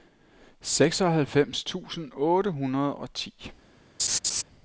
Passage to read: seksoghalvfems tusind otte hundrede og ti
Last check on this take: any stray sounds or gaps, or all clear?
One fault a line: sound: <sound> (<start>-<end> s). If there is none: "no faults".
sound: laugh (4.0-4.4 s)